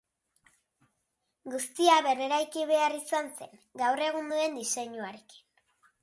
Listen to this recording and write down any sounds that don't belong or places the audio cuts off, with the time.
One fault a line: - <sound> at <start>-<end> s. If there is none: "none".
none